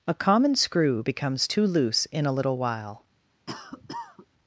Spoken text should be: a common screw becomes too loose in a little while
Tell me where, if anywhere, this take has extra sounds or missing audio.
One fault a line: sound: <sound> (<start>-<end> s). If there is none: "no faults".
sound: cough (3.5-4.3 s)